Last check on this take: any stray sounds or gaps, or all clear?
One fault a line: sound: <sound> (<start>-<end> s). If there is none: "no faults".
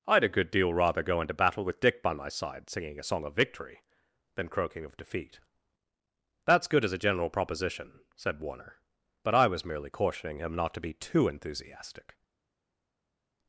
no faults